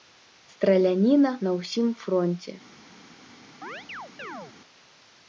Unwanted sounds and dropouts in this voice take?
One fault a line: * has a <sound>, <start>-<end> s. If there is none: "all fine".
* has a chirp, 3.6-4.5 s